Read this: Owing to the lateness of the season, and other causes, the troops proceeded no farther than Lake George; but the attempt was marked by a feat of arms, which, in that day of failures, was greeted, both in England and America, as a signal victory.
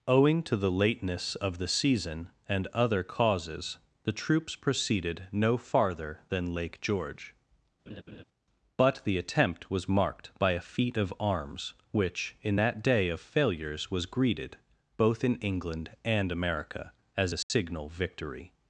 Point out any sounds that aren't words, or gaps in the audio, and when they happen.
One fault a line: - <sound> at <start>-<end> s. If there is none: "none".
- laugh at 7.9-8.2 s
- dropout at 17.4-17.5 s